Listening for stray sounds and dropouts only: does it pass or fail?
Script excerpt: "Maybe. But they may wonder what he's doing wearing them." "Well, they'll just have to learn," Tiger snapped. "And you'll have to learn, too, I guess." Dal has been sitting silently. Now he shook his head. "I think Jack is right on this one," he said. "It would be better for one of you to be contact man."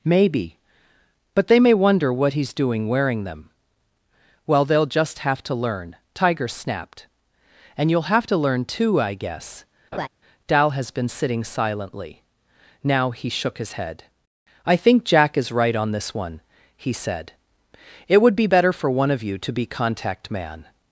fail